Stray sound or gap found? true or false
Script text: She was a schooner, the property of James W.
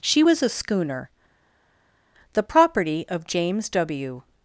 false